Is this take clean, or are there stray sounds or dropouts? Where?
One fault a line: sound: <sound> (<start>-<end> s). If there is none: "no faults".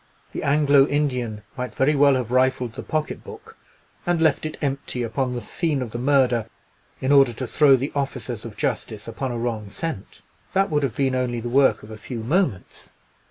no faults